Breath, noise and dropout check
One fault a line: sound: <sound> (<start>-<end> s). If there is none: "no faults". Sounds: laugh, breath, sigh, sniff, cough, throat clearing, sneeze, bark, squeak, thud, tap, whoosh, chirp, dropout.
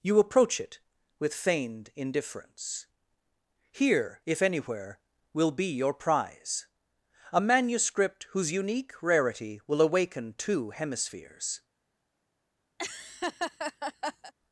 sound: laugh (12.8-14.3 s)